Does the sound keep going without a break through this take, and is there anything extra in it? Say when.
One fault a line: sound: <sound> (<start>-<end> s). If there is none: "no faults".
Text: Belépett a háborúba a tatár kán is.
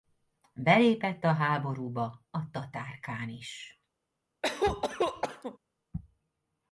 sound: cough (4.4-5.6 s)